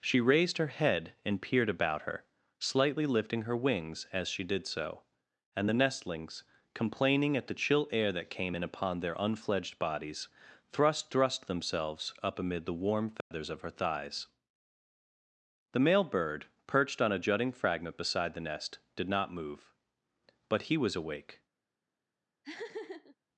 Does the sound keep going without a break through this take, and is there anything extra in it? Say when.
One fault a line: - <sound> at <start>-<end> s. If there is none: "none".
- dropout at 13.2-13.3 s
- laugh at 22.4-23.2 s